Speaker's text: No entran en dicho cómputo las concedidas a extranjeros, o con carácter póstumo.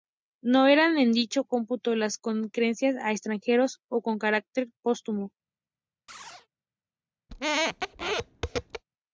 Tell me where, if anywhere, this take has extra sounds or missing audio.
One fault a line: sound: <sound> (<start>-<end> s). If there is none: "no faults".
sound: chirp (6.1-6.5 s)
sound: squeak (7.3-8.8 s)